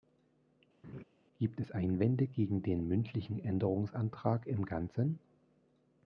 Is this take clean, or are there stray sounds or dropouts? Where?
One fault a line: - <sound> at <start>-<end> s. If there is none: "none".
- laugh at 0.8-1.0 s